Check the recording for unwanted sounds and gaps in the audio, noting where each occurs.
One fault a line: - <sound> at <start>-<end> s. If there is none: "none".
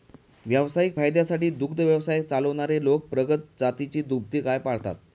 none